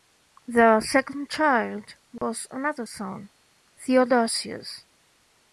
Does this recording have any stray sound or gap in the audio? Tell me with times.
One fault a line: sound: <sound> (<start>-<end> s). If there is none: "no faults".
sound: dropout (2.2-2.2 s)